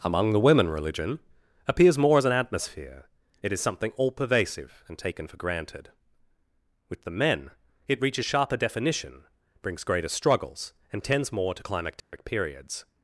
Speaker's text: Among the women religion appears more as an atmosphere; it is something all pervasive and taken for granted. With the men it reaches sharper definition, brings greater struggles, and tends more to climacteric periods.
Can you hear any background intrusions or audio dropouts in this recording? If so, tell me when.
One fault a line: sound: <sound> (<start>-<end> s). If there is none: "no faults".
sound: dropout (12.0-12.1 s)